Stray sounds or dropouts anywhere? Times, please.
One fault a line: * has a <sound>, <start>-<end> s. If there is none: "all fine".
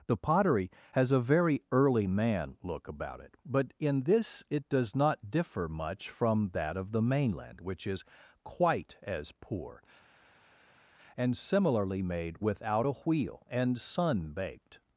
all fine